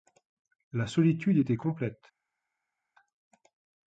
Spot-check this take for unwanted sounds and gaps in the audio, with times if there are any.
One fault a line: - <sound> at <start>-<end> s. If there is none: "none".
none